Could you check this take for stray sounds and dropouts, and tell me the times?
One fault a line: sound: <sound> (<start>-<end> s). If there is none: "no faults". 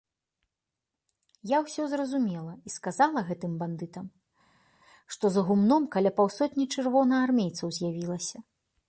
no faults